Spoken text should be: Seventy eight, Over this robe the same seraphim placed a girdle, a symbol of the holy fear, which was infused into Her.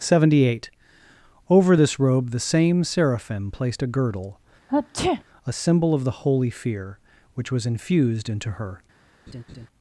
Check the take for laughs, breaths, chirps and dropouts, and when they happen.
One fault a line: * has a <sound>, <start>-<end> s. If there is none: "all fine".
* has a sneeze, 4.7-5.2 s
* has a laugh, 9.3-9.7 s